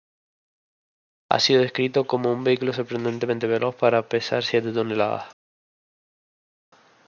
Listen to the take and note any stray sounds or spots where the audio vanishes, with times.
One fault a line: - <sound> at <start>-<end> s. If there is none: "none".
none